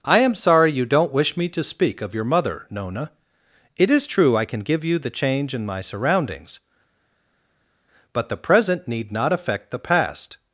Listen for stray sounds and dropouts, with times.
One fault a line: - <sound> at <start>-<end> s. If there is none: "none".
none